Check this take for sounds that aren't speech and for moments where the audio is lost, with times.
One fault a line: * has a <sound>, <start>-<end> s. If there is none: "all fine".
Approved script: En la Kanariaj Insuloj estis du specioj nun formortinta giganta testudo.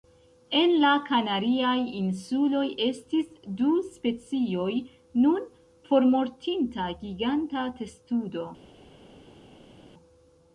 all fine